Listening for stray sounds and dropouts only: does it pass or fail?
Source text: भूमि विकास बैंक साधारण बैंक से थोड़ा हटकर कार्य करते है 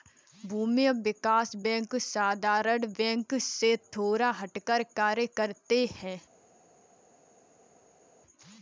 pass